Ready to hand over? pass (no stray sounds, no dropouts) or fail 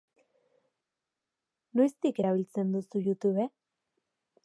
pass